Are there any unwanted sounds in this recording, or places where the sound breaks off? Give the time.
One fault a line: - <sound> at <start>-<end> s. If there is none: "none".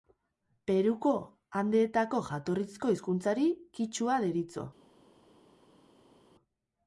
none